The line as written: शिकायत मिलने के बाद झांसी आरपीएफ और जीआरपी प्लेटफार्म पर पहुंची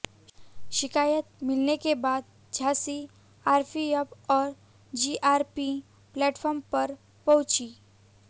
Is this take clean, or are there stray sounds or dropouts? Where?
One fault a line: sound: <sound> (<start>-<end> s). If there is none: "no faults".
no faults